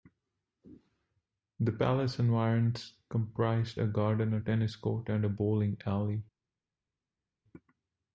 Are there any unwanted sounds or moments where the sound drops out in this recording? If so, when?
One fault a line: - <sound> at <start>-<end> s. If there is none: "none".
none